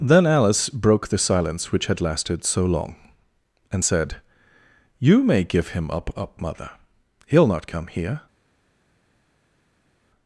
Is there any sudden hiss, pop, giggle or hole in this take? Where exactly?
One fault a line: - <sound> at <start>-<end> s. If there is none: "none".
none